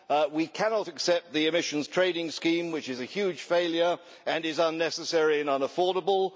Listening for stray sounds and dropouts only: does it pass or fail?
pass